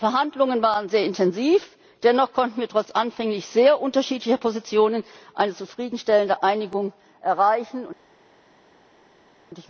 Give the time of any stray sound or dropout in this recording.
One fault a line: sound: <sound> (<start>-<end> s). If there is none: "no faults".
no faults